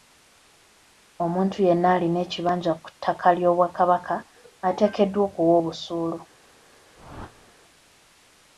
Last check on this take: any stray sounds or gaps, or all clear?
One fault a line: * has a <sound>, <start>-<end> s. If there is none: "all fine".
* has a whoosh, 7.0-7.5 s